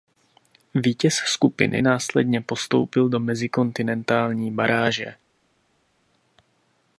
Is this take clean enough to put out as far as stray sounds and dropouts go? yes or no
yes